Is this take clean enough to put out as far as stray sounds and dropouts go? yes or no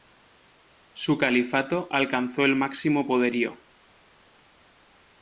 yes